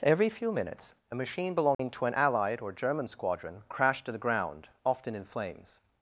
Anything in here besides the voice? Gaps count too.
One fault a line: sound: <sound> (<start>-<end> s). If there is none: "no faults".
sound: dropout (1.7-1.8 s)